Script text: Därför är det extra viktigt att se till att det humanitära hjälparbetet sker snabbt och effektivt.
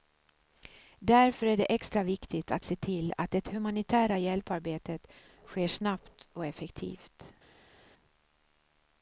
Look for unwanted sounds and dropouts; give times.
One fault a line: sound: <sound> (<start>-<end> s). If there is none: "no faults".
no faults